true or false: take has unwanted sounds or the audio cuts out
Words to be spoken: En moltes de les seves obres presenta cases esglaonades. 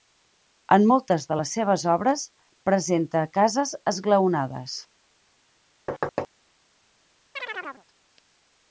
true